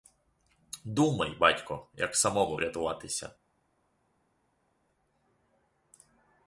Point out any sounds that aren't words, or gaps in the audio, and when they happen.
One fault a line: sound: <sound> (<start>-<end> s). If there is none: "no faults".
no faults